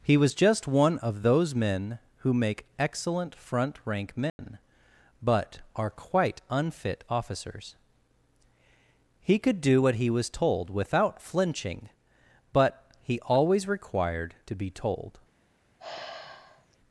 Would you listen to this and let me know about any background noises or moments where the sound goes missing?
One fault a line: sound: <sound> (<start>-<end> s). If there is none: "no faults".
sound: dropout (4.3-4.4 s)
sound: sigh (15.8-16.8 s)